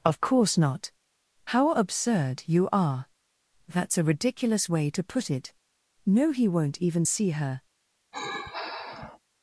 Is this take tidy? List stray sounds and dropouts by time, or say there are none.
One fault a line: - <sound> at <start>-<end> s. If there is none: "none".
- sigh at 8.1-9.2 s